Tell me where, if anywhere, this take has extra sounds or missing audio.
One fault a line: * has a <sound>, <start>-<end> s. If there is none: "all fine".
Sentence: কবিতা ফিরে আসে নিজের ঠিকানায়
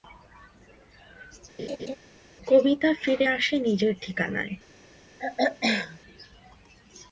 * has a laugh, 1.6-2.0 s
* has a throat clearing, 5.2-6.0 s